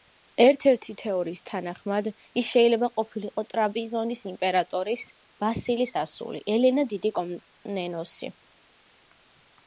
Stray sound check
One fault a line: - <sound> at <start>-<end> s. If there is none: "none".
none